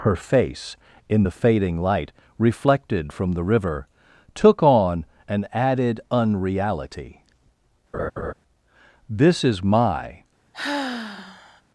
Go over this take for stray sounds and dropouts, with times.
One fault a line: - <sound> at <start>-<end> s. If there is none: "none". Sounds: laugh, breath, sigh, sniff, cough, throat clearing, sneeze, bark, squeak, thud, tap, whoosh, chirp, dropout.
- laugh at 7.9-8.3 s
- sigh at 10.5-11.6 s